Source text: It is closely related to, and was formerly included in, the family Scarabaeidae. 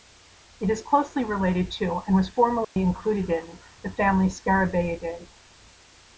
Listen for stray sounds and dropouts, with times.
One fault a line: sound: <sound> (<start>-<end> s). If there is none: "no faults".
sound: dropout (2.6-2.8 s)